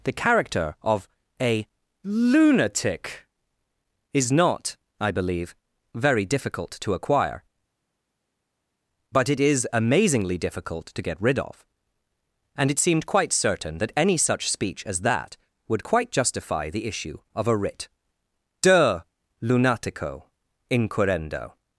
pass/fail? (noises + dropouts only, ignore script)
pass